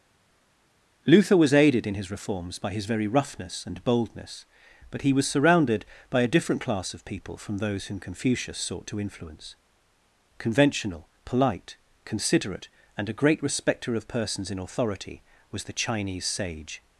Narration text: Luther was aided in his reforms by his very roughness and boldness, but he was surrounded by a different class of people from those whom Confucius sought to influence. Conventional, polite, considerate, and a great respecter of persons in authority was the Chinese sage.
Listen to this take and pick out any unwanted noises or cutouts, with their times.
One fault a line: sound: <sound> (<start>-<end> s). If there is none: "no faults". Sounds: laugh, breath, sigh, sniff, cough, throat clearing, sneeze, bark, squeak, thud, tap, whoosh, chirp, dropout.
no faults